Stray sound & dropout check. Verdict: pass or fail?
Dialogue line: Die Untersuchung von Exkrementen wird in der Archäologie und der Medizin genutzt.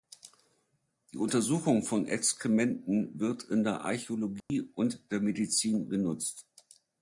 fail